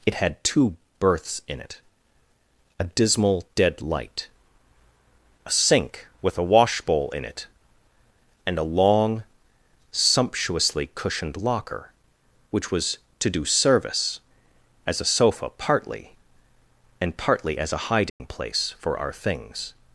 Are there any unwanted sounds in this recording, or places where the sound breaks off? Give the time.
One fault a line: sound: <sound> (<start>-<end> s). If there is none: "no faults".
sound: dropout (18.1-18.2 s)